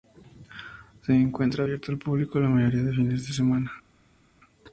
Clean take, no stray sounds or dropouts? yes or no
yes